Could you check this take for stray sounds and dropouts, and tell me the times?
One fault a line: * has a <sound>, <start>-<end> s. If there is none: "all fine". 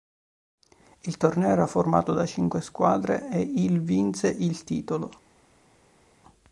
all fine